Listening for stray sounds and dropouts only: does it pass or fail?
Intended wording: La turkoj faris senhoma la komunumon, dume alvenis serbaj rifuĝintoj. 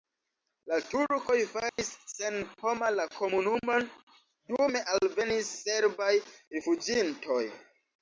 fail